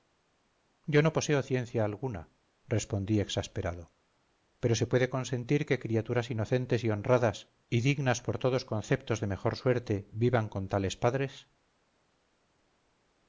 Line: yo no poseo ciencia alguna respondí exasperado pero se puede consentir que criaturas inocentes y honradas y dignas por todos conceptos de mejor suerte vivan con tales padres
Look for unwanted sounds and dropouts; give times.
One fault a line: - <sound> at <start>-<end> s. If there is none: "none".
none